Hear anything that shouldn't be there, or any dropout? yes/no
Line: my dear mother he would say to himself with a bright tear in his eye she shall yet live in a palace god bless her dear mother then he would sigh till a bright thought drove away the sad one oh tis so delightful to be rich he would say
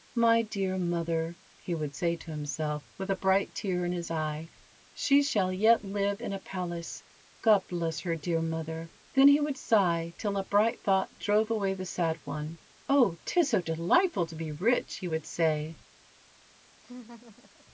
yes